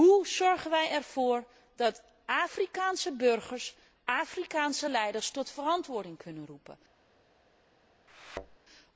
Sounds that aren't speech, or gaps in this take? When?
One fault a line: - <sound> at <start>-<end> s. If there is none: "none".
- thud at 8.1-8.6 s